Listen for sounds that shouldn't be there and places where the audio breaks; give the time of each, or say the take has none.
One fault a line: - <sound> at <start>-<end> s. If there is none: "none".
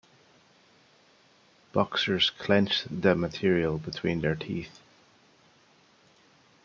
none